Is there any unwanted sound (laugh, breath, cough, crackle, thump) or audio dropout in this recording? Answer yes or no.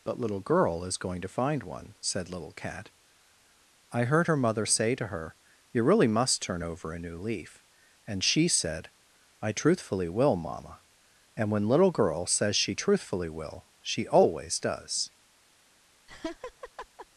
yes